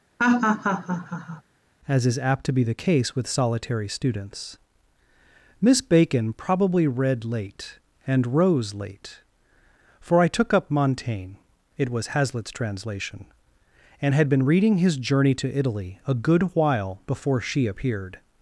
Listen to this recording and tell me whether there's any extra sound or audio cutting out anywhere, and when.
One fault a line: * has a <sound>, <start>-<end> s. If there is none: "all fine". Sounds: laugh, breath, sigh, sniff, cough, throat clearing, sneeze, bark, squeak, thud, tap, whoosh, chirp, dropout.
* has a laugh, 0.2-1.4 s